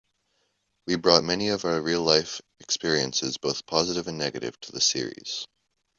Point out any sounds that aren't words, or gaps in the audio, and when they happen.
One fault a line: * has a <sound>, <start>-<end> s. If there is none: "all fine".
all fine